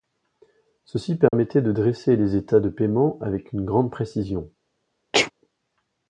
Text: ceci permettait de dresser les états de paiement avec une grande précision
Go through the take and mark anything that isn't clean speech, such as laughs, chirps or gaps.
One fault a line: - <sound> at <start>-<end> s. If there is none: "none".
- dropout at 1.3-1.3 s
- sneeze at 5.1-5.3 s